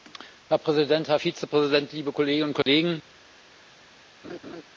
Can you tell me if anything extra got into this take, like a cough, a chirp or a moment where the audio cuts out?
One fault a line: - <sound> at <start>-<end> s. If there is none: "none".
- dropout at 2.6-2.7 s
- laugh at 4.2-4.6 s